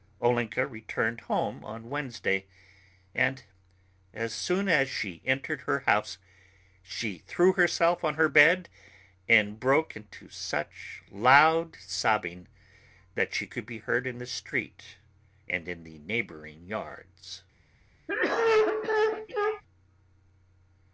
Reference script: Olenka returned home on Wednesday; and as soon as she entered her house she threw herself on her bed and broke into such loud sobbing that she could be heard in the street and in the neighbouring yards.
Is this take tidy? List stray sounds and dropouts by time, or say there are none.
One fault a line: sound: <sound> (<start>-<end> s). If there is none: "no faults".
sound: cough (18.1-19.6 s)